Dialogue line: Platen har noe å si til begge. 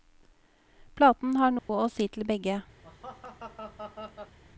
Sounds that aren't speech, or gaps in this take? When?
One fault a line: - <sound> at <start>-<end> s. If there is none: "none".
- dropout at 1.6-1.7 s
- laugh at 2.8-4.4 s